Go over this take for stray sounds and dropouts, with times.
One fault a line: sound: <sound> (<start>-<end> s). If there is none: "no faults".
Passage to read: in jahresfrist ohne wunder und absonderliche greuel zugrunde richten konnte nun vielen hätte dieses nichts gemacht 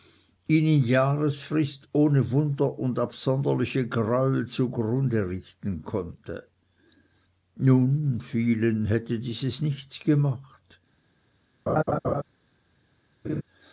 sound: laugh (11.7-12.2 s)
sound: laugh (13.2-13.4 s)